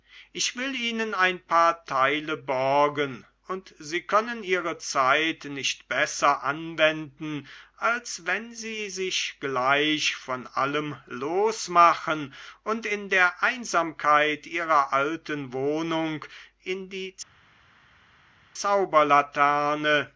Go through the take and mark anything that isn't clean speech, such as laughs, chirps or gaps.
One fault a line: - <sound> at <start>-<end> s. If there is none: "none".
none